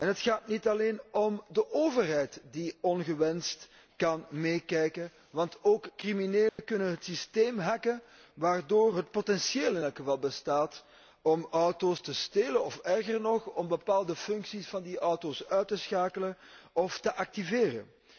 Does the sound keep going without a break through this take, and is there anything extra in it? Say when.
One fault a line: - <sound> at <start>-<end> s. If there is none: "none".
- dropout at 6.5-6.6 s